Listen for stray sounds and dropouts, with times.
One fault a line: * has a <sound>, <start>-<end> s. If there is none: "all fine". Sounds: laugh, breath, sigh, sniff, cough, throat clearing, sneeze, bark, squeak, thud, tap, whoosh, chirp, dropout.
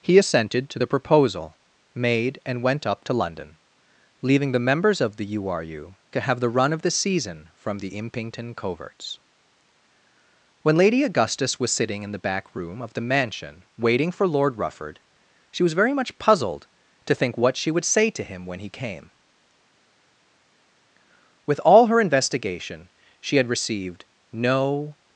all fine